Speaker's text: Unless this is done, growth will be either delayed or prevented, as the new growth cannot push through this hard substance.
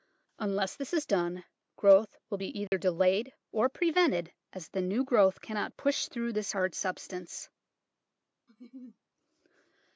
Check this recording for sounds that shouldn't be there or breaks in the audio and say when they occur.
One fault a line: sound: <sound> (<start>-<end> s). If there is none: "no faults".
sound: dropout (2.7-2.7 s)
sound: laugh (8.5-9.0 s)